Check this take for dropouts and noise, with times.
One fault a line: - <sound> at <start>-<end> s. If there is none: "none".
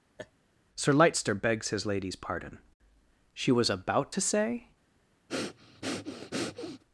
- laugh at 0.2-0.3 s
- breath at 5.3-6.8 s